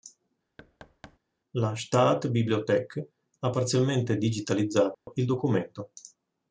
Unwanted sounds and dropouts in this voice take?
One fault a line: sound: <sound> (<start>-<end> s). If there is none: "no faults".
sound: thud (0.6-1.2 s)
sound: dropout (4.9-5.1 s)